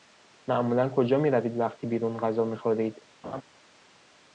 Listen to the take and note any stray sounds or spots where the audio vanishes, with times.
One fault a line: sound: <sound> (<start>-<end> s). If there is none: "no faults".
sound: laugh (3.2-3.4 s)